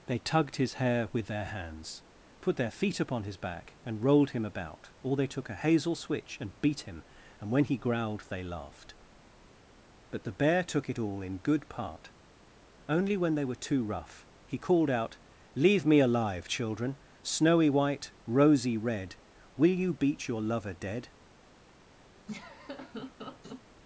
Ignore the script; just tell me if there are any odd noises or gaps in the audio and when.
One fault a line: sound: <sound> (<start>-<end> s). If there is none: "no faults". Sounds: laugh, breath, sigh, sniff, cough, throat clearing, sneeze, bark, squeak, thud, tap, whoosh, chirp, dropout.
sound: laugh (22.3-23.6 s)